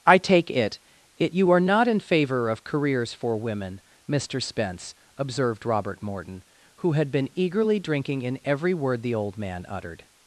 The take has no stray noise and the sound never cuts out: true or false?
true